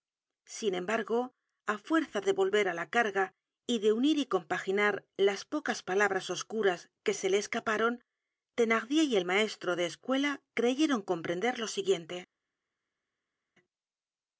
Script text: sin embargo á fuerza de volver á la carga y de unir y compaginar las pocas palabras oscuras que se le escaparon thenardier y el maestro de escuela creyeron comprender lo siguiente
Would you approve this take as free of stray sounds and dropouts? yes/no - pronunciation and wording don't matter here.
yes